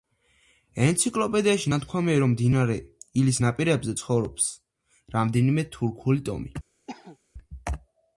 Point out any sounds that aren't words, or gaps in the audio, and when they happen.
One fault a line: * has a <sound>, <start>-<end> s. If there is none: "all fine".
* has a cough, 6.9-7.2 s